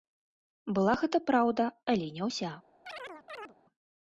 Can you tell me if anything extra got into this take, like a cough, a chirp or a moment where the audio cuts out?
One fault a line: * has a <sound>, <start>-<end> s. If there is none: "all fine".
* has a chirp, 2.9-3.6 s